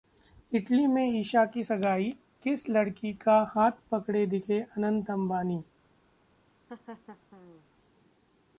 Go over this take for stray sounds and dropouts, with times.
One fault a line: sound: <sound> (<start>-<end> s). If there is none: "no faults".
sound: laugh (6.7-7.7 s)